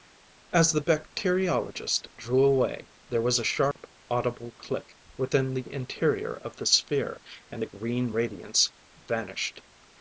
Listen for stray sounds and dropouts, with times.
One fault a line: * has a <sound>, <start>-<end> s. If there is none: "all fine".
* has a dropout, 3.7-3.8 s